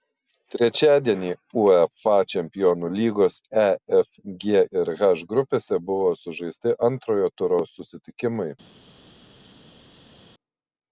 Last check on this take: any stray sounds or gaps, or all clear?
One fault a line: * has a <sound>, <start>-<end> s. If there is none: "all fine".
all fine